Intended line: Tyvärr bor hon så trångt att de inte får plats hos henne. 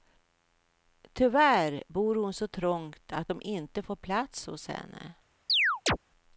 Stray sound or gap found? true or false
true